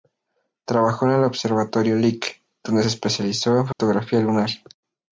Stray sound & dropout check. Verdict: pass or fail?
fail